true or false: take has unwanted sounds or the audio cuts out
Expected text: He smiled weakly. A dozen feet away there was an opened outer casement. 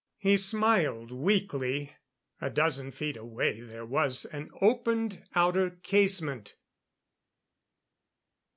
false